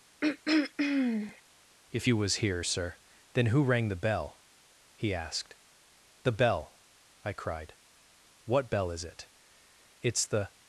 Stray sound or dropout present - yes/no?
yes